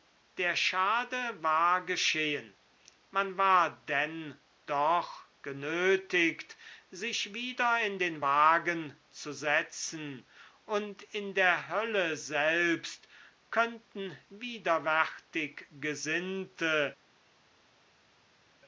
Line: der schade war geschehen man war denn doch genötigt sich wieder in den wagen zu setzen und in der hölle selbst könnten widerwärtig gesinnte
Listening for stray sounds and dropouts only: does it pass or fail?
pass